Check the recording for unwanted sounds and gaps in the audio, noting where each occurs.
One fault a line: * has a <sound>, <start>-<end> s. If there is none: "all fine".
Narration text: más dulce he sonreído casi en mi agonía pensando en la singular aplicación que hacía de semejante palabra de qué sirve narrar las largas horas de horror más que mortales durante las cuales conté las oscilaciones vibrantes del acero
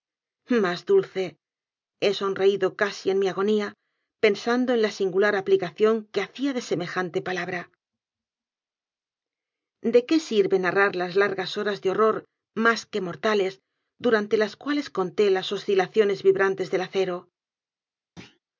* has a thud, 18.2-18.4 s